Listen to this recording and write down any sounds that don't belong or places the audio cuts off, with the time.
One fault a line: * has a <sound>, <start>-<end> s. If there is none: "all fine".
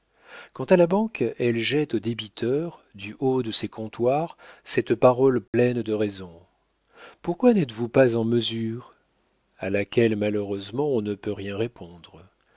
* has a dropout, 5.5-5.5 s